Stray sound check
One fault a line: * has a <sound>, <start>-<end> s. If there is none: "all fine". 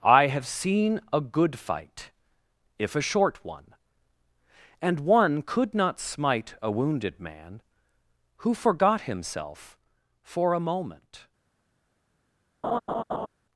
* has a laugh, 12.6-13.3 s